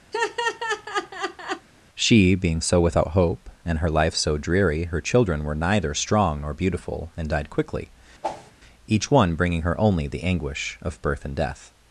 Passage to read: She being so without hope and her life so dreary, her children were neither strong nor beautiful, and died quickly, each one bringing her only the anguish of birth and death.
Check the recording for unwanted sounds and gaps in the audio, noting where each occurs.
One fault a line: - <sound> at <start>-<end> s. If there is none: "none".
- laugh at 0.1-1.7 s
- whoosh at 8.2-8.5 s